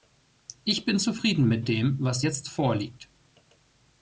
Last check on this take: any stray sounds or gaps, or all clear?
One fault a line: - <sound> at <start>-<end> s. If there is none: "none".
none